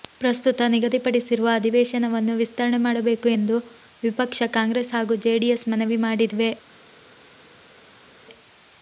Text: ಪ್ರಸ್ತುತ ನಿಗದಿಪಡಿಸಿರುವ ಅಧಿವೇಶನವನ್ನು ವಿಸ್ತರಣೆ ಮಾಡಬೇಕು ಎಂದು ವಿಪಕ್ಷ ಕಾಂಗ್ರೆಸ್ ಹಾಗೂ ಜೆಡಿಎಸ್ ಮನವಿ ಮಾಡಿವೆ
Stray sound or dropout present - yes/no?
no